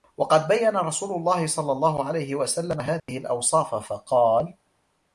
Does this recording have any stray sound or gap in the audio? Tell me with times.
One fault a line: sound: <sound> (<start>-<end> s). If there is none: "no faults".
sound: dropout (3.0-3.1 s)